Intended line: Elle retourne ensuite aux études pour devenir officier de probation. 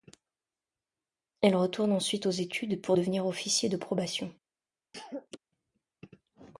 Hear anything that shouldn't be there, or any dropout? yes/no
yes